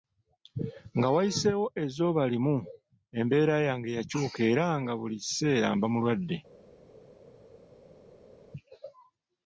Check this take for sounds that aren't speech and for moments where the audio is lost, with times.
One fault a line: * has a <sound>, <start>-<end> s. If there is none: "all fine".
all fine